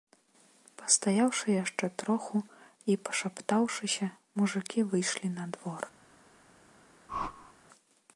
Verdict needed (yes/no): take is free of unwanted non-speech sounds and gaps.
no